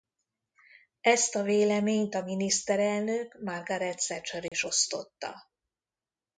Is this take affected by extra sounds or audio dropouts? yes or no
yes